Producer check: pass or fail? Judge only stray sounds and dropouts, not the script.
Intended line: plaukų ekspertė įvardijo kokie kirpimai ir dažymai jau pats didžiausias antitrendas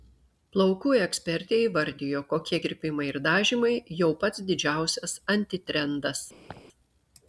fail